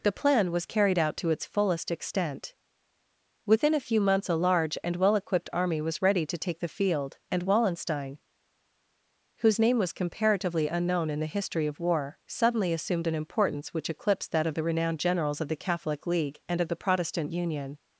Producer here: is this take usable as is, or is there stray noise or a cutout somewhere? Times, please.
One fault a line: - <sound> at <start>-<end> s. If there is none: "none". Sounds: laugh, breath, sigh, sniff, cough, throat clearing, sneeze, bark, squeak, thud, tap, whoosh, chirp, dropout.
none